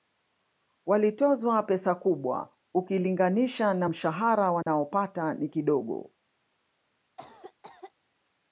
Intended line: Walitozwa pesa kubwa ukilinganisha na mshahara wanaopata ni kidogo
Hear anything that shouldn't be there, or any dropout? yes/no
yes